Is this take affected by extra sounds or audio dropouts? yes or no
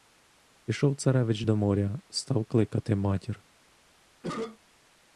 yes